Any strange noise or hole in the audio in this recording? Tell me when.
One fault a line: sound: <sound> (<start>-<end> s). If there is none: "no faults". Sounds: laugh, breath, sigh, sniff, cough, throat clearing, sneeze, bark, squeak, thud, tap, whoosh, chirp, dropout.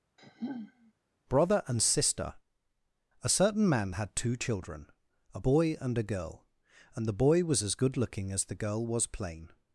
sound: sigh (0.2-0.9 s)